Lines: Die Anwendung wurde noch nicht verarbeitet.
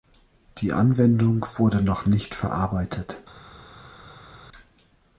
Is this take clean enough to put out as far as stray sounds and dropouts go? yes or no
yes